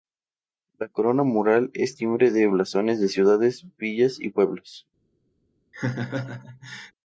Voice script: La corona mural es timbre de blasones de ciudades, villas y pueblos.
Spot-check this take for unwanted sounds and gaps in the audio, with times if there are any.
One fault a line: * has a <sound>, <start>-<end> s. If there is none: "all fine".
* has a laugh, 5.7-6.9 s